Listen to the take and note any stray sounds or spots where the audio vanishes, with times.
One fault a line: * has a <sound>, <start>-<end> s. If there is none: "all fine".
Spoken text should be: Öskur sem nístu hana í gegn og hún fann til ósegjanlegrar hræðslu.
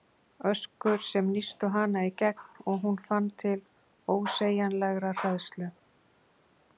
all fine